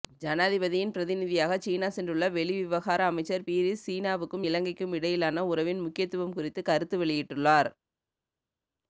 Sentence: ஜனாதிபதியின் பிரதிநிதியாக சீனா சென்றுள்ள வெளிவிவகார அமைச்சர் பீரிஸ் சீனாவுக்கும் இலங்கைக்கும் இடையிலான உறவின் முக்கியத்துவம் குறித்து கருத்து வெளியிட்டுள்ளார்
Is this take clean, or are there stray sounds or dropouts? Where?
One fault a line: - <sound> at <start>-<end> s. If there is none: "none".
none